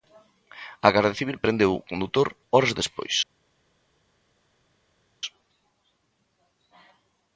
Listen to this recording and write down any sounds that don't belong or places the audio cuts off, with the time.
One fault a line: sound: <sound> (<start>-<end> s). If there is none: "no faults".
no faults